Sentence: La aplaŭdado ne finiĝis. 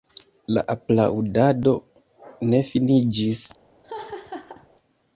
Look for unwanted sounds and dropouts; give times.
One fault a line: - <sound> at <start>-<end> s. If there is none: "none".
- laugh at 3.8-4.7 s